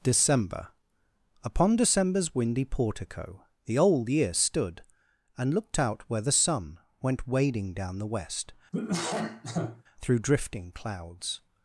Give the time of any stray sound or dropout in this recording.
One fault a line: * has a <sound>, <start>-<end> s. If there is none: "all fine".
* has a cough, 8.7-9.8 s